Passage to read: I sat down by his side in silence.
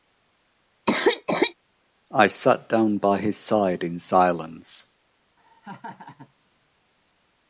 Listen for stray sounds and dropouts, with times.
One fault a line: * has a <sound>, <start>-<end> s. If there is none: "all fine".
* has a cough, 0.9-1.5 s
* has a laugh, 5.4-6.3 s